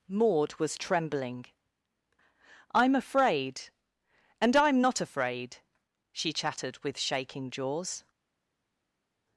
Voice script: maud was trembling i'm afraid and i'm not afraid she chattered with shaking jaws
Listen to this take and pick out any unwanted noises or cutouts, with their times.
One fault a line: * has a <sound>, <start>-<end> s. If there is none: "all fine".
all fine